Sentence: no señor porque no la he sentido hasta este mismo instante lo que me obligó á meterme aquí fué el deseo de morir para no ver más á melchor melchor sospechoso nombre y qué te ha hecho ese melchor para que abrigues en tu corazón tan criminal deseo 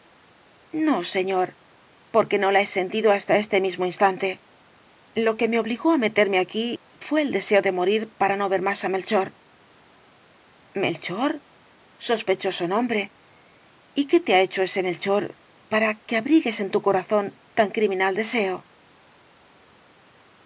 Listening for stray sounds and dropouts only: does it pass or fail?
pass